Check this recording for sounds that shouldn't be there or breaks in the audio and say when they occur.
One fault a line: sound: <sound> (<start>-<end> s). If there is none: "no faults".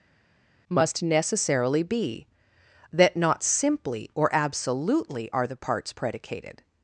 no faults